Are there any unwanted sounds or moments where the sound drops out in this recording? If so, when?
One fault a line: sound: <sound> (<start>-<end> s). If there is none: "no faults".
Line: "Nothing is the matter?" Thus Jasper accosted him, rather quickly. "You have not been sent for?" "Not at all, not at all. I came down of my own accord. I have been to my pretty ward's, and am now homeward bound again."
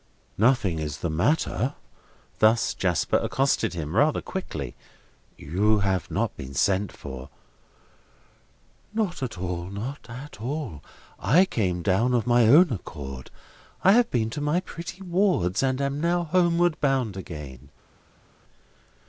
no faults